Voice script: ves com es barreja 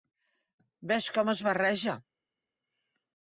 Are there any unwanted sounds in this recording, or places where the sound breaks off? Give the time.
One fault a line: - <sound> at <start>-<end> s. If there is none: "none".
none